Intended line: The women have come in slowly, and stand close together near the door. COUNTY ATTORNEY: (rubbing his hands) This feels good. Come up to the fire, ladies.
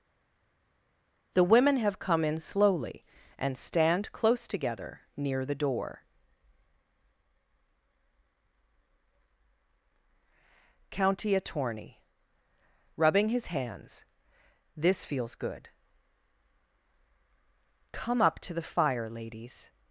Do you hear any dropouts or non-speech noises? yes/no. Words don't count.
no